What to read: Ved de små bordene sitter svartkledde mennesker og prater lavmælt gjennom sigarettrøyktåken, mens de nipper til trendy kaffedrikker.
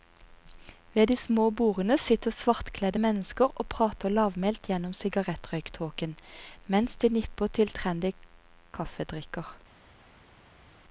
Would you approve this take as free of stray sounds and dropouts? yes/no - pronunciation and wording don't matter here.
yes